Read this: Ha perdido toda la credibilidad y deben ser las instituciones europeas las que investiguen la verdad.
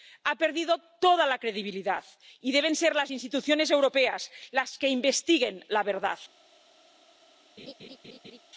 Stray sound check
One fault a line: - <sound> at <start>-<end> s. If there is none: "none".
- laugh at 7.6-8.4 s